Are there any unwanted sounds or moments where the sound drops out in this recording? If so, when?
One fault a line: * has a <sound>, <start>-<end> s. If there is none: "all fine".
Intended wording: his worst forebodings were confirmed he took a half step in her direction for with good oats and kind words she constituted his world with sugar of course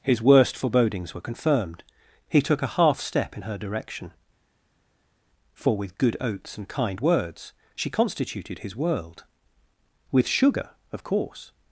all fine